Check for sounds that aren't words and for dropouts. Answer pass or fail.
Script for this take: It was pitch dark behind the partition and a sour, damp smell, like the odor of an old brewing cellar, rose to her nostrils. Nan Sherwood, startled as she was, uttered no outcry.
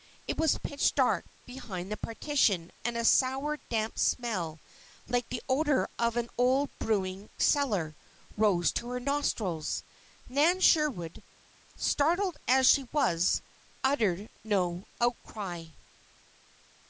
pass